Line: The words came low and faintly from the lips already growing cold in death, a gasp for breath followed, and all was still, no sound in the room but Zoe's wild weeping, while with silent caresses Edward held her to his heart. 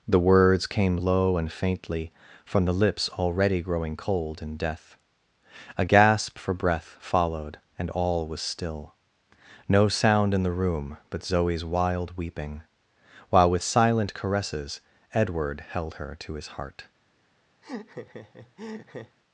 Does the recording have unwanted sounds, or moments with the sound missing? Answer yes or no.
yes